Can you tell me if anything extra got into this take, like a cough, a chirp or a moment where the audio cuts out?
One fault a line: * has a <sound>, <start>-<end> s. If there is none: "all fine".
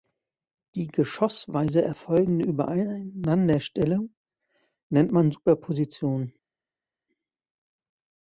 all fine